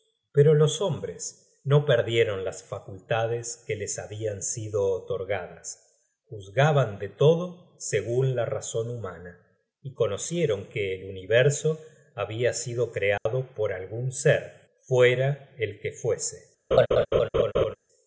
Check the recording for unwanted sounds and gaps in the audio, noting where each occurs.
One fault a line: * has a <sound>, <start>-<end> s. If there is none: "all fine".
* has a dropout, 13.2-13.3 s
* has a laugh, 16.7-17.8 s